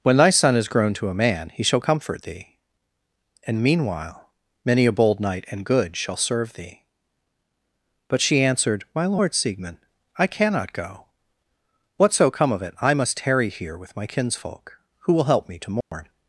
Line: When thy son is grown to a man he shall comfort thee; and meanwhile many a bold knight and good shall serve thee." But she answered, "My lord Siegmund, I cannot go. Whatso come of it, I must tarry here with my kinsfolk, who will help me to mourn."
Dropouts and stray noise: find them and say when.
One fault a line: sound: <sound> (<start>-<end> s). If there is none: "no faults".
sound: dropout (15.8-15.9 s)